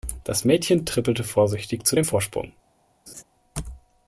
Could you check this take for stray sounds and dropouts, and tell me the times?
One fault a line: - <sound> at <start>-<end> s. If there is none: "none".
- laugh at 3.1-3.2 s